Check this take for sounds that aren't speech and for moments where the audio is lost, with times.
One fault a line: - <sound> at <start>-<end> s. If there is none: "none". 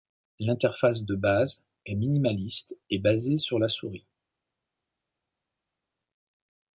none